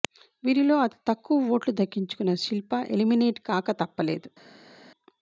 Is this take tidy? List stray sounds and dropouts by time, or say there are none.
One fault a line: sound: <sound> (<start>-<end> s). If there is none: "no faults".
no faults